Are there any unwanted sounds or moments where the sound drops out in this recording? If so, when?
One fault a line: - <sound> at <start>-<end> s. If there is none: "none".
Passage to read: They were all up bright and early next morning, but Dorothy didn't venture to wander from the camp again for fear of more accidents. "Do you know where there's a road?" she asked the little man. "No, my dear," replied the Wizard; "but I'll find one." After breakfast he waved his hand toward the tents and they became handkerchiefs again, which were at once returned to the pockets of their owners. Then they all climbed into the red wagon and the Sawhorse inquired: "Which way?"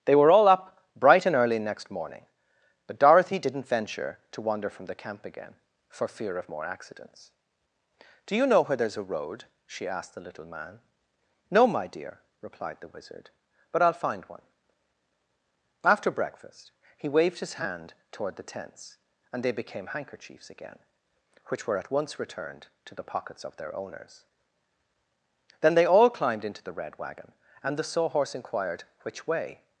none